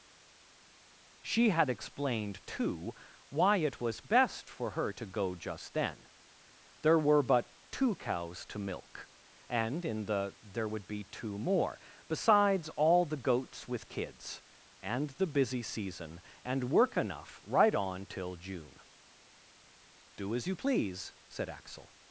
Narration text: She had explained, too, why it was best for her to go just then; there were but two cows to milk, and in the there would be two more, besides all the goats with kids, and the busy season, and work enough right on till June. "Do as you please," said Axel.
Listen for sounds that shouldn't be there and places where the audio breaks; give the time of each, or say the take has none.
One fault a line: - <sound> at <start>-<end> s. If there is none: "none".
none